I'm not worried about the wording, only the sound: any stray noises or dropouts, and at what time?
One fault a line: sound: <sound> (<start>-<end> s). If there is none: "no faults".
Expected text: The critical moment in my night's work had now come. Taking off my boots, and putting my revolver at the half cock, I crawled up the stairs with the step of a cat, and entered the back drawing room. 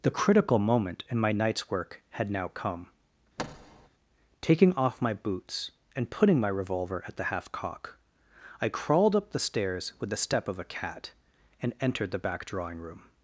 sound: thud (3.4-3.9 s)